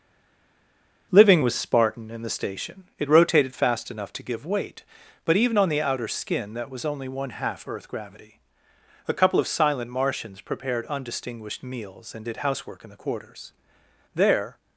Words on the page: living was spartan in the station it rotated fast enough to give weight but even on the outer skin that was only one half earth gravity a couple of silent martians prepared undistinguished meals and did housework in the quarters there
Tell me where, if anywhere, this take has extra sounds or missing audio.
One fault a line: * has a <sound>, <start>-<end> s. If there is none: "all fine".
all fine